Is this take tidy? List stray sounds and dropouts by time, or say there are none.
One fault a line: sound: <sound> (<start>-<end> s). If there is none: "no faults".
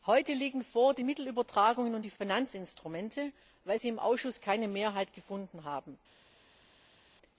no faults